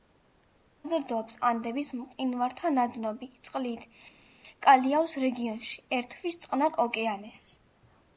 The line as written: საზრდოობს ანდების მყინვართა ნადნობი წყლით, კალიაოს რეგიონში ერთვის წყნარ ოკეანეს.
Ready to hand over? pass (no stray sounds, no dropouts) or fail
pass